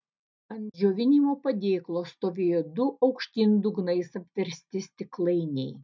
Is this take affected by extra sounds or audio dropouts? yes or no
no